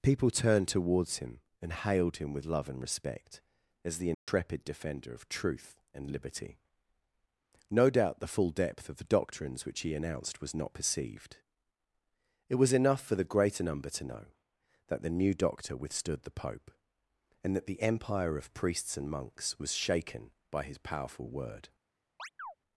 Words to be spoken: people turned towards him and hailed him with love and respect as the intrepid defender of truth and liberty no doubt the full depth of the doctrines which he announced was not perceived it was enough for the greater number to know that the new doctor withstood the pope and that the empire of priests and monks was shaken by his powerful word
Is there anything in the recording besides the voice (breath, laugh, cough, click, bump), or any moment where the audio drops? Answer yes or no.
yes